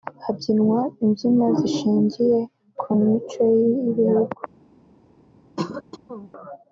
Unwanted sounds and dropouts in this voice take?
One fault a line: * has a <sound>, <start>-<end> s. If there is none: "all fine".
* has a throat clearing, 5.6-6.3 s